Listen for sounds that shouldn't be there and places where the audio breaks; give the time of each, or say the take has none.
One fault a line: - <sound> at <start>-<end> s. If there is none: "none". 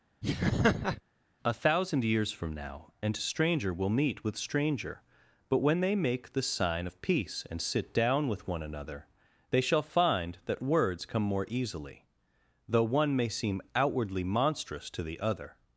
- laugh at 0.2-1.0 s